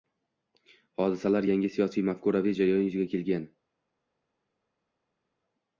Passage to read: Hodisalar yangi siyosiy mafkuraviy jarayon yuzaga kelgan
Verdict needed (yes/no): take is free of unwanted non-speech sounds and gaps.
yes